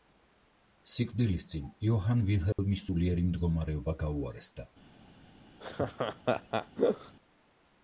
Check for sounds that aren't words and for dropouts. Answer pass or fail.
fail